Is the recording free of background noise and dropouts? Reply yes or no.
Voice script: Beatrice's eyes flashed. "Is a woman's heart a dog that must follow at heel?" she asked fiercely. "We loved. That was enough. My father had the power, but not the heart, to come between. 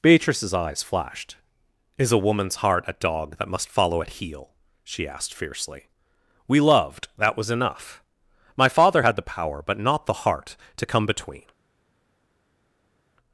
yes